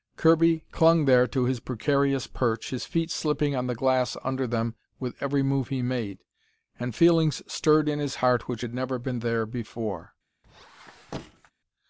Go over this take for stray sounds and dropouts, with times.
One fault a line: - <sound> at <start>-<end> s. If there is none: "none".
- squeak at 10.4-11.5 s